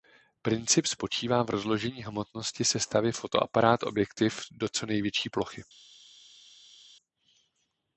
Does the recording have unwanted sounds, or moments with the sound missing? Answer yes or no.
no